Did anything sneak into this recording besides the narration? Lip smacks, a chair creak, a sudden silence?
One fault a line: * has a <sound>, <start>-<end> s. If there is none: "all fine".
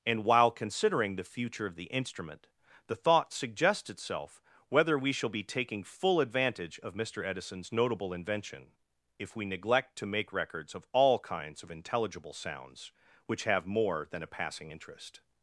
all fine